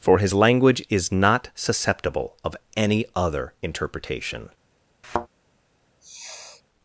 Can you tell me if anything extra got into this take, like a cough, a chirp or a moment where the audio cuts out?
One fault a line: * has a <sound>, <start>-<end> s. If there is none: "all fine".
* has a thud, 5.0-5.3 s
* has a sniff, 6.0-6.6 s